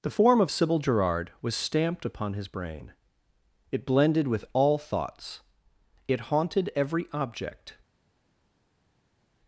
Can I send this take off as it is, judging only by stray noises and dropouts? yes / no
yes